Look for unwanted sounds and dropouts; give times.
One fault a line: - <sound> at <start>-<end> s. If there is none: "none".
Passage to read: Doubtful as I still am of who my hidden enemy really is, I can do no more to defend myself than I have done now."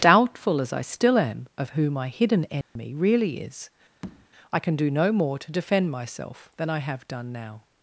- dropout at 2.6-2.8 s
- tap at 4.0-4.3 s